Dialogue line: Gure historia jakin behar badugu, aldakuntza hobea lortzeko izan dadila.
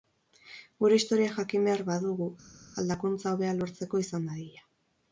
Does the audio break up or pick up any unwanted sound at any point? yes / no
no